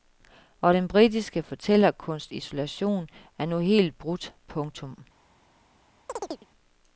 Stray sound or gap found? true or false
true